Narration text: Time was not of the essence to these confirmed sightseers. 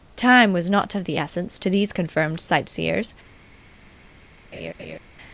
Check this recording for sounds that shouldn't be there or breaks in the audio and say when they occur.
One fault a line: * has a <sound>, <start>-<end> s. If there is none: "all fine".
* has a laugh, 4.5-5.0 s